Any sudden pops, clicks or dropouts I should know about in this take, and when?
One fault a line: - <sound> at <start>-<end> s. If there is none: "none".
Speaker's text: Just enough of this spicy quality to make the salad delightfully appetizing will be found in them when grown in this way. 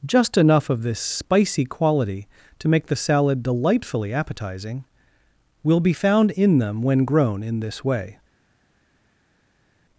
none